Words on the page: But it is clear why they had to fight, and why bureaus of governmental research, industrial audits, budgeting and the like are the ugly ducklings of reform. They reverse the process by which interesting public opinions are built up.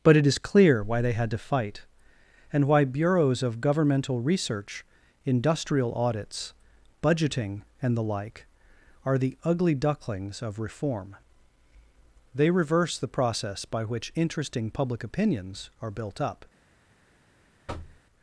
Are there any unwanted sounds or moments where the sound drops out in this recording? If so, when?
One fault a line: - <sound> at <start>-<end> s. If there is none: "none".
- thud at 17.7-18.0 s